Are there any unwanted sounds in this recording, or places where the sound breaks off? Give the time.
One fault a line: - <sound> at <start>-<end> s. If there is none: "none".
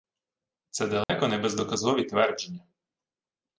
- dropout at 1.0-1.1 s